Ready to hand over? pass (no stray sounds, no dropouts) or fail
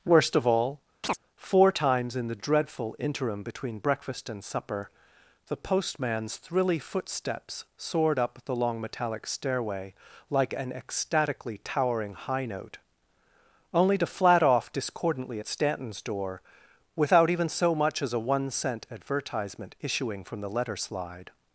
fail